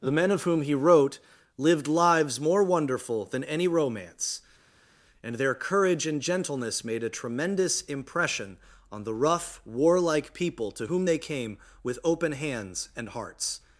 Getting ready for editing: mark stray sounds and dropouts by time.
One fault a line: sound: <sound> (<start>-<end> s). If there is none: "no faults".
no faults